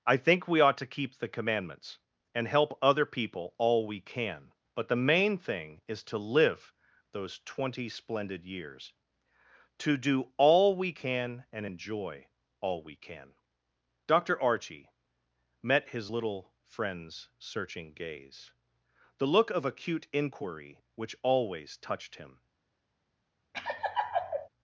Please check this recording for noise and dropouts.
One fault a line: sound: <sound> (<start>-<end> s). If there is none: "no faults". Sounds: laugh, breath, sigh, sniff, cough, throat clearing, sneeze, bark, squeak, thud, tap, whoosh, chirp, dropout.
sound: laugh (23.5-24.5 s)